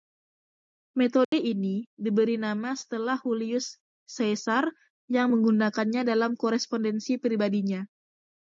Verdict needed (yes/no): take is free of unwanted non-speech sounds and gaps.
no